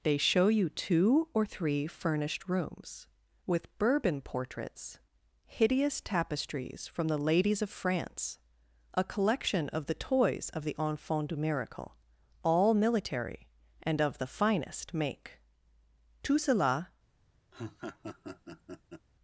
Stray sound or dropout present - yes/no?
yes